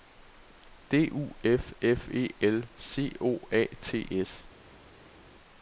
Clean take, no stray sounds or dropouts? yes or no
yes